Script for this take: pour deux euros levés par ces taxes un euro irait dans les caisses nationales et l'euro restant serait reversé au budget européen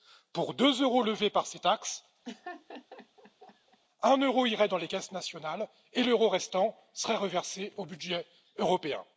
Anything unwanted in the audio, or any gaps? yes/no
yes